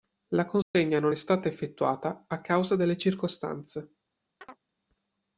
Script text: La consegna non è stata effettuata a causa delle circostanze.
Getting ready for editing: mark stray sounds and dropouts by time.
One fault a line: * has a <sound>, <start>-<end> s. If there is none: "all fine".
* has a dropout, 0.6-0.7 s
* has a chirp, 4.4-4.6 s